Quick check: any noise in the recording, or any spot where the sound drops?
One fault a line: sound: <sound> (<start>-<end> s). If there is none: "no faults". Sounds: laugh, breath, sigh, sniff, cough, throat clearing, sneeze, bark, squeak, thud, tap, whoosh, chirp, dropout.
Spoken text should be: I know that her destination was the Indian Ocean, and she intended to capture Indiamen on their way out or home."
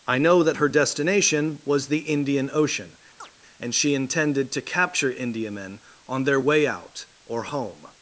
sound: chirp (3.2-3.3 s)